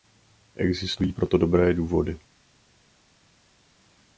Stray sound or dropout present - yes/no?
no